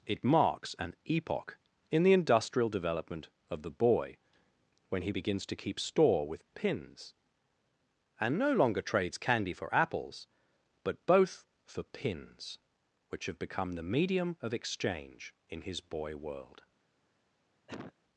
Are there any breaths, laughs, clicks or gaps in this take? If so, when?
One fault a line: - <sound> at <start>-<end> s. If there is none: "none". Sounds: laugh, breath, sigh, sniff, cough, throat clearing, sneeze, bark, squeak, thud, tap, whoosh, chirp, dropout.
- cough at 17.7-17.9 s